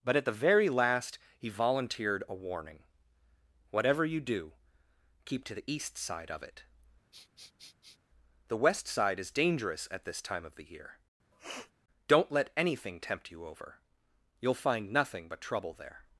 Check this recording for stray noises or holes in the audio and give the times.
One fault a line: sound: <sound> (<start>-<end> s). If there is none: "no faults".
sound: sniff (7.1-8.0 s)
sound: sniff (11.3-11.7 s)